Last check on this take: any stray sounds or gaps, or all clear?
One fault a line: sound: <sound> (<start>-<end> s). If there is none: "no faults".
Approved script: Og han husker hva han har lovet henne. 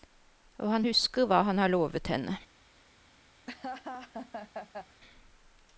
sound: laugh (3.5-5.0 s)